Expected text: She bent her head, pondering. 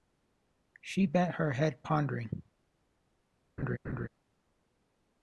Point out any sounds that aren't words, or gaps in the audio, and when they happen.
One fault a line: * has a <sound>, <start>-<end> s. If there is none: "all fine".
* has a laugh, 3.6-4.1 s